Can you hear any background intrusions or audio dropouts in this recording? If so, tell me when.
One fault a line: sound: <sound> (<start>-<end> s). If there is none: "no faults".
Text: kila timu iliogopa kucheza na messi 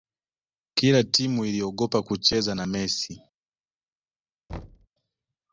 sound: thud (4.5-4.9 s)